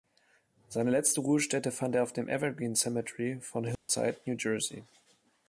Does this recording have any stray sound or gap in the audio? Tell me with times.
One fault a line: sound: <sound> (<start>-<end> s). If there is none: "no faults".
sound: dropout (3.8-3.9 s)